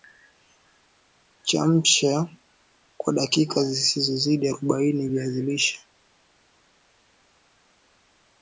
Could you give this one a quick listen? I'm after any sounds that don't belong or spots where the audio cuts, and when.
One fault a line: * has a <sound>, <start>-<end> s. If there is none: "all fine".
all fine